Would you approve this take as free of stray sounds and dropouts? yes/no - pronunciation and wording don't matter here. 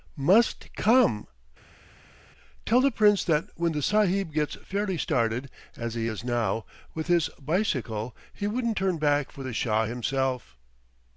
yes